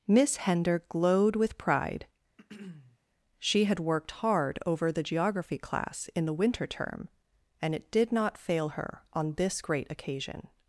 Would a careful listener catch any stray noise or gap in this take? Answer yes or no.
yes